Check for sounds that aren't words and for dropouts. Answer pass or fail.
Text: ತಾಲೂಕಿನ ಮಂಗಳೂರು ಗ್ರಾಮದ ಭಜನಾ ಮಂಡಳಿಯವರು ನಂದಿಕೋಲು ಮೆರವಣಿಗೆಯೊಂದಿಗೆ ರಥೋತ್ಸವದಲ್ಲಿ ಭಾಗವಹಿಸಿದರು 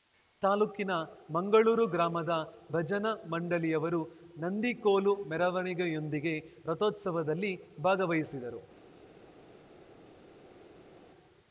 pass